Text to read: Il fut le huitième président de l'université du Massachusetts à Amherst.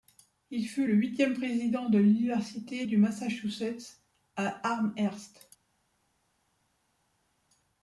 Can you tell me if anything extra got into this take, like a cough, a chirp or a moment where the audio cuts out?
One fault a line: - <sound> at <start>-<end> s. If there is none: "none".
none